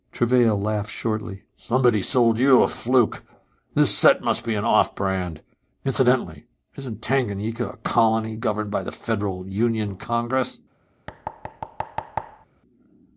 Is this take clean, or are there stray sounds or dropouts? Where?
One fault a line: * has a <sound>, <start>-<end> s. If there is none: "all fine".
* has a thud, 11.1-12.5 s